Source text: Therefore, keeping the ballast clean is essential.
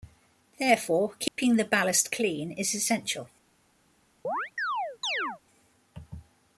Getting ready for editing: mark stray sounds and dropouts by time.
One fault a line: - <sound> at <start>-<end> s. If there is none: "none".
- dropout at 1.3-1.4 s
- chirp at 4.2-5.4 s